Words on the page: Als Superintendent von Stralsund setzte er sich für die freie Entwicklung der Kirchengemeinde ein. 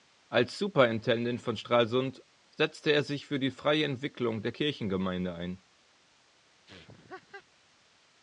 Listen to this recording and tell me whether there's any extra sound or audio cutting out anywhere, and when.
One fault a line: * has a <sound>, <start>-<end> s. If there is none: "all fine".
* has a laugh, 6.7-7.5 s